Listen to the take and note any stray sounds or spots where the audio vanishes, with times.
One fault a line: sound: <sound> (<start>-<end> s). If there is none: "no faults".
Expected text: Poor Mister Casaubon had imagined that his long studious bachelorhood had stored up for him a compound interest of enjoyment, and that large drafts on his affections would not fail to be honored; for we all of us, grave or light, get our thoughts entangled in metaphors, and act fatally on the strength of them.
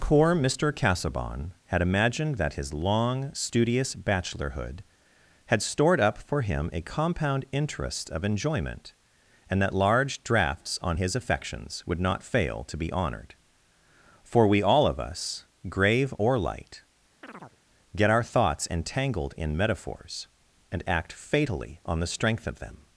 sound: chirp (17.2-17.6 s)